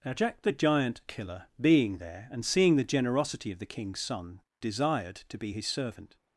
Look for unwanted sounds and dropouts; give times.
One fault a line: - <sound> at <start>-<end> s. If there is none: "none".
none